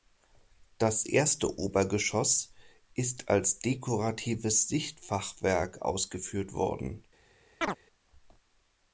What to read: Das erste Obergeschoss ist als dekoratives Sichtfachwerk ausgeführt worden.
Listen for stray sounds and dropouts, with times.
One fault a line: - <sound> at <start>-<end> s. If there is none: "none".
- chirp at 7.6-7.8 s